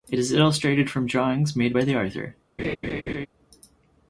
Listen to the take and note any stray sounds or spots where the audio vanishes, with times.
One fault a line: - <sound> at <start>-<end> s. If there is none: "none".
- laugh at 2.6-3.3 s